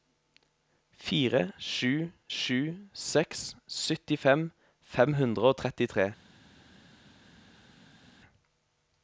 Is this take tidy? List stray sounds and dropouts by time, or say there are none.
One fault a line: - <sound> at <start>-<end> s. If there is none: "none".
none